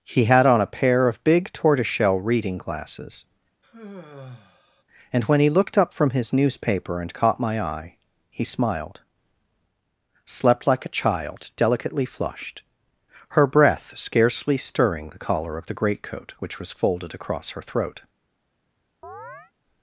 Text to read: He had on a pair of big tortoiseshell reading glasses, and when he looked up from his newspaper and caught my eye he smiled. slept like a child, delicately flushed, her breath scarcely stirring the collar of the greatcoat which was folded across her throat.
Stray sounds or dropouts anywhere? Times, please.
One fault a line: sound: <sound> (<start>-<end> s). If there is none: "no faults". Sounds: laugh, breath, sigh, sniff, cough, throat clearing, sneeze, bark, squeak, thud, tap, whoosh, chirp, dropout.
sound: sigh (3.6-4.8 s)
sound: chirp (19.0-19.5 s)